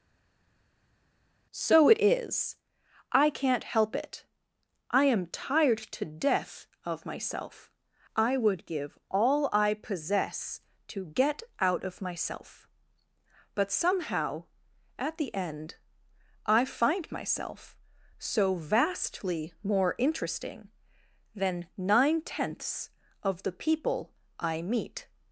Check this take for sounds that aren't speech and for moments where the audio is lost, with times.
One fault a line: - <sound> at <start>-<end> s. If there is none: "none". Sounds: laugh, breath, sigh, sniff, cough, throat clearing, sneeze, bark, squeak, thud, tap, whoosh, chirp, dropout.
none